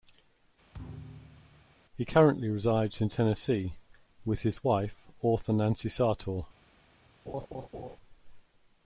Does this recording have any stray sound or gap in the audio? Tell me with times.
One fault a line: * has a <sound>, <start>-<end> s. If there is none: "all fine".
* has a thud, 0.7-1.8 s
* has a laugh, 7.3-8.0 s